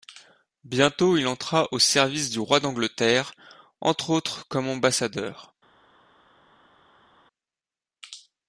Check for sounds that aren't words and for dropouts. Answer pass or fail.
pass